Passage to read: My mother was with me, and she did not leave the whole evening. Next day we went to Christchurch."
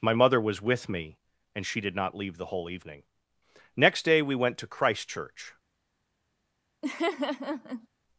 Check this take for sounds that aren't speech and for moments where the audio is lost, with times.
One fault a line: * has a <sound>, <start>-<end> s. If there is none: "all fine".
* has a laugh, 6.8-7.9 s